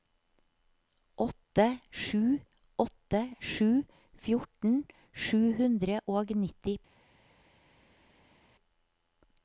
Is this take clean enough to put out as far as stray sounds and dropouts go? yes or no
yes